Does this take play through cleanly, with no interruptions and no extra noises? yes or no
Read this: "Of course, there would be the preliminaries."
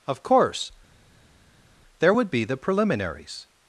yes